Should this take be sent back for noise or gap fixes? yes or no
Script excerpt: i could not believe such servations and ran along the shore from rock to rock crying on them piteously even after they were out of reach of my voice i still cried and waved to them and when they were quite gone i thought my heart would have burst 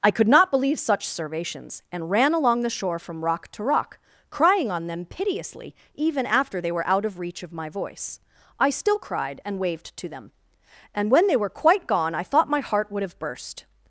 no